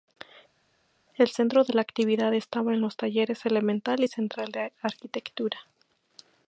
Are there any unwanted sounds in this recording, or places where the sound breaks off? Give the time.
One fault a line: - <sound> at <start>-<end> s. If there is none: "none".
none